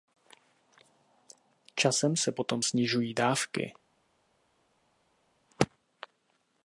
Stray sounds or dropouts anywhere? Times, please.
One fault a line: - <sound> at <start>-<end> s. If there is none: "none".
none